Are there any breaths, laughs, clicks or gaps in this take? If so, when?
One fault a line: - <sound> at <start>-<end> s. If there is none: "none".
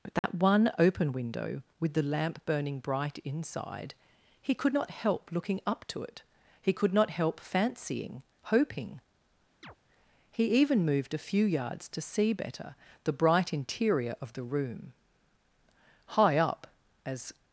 - dropout at 0.2-0.2 s
- chirp at 9.6-9.8 s